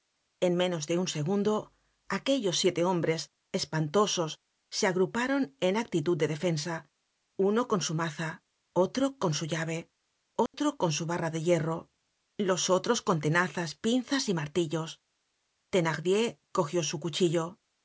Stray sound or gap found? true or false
true